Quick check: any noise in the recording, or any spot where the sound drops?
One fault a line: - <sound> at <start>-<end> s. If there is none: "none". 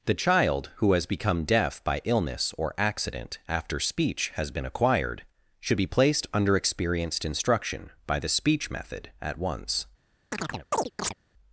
- chirp at 10.3-11.1 s